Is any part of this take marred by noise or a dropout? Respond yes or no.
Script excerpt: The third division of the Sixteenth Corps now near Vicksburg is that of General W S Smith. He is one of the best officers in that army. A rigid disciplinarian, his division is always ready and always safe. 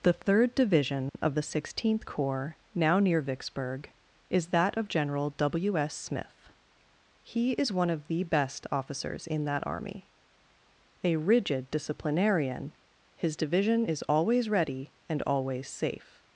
yes